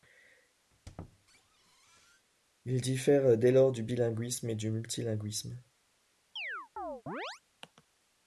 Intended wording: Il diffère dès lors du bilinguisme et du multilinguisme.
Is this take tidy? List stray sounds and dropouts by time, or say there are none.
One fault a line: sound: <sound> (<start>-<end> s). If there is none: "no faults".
sound: squeak (0.7-2.3 s)
sound: chirp (6.4-7.4 s)